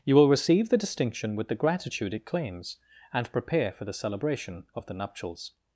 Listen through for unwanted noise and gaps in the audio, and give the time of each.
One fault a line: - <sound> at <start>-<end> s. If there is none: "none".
none